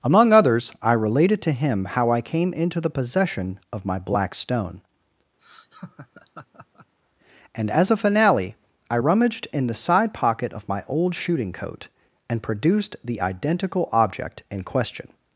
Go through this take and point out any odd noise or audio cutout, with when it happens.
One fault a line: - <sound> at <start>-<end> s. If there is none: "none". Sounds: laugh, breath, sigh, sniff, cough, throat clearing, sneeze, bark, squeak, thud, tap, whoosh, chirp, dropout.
- laugh at 5.4-6.9 s